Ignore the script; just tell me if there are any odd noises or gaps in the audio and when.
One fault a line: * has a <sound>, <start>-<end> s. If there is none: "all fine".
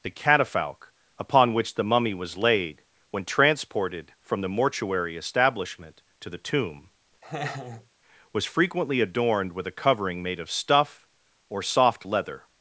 * has a laugh, 7.2-7.9 s